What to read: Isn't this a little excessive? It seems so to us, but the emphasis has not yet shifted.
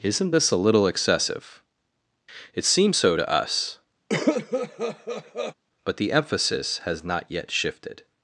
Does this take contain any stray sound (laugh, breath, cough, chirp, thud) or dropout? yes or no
yes